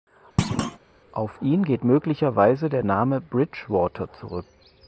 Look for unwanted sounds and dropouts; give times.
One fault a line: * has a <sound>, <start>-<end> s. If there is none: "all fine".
* has a thud, 0.4-0.8 s